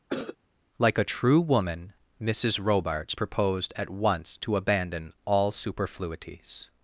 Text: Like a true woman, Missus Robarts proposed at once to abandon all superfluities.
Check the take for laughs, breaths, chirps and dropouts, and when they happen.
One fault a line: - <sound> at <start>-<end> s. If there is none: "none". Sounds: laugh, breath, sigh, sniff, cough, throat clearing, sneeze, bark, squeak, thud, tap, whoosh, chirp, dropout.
- cough at 0.1-0.4 s